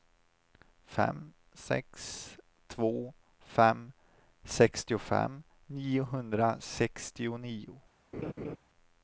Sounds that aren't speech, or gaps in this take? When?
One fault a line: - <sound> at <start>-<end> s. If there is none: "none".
- laugh at 8.1-8.6 s